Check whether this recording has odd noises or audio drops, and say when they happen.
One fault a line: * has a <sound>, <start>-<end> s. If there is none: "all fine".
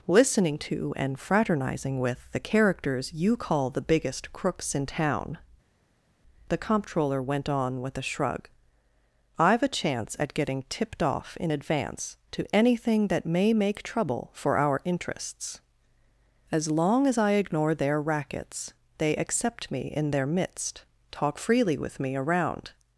all fine